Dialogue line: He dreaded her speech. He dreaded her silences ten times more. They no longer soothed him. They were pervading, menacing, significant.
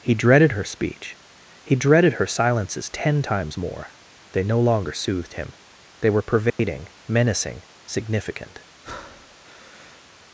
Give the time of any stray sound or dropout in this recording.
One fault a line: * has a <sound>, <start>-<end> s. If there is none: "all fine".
* has a dropout, 6.5-6.6 s
* has a breath, 8.8-10.0 s